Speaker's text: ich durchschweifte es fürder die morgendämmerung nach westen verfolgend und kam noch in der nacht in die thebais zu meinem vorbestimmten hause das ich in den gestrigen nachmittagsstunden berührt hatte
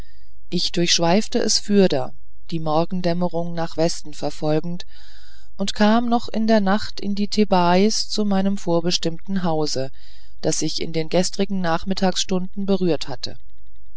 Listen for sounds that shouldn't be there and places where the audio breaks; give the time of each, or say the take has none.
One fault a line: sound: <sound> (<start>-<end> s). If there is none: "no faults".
no faults